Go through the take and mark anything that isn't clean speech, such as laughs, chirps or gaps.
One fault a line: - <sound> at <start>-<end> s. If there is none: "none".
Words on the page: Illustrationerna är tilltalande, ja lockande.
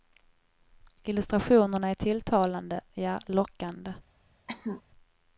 - cough at 4.5-4.8 s